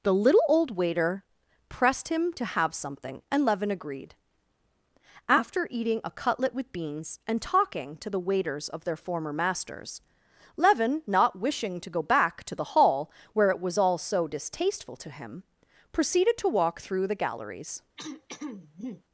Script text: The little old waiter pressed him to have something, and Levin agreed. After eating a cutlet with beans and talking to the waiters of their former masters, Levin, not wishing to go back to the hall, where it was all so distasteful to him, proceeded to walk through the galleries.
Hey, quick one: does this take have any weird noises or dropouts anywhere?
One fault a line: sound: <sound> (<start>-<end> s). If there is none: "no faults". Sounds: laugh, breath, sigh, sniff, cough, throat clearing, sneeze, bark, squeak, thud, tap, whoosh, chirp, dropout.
sound: throat clearing (18.0-19.0 s)